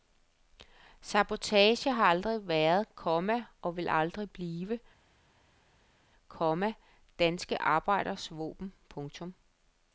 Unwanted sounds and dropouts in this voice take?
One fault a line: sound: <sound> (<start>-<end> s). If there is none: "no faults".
no faults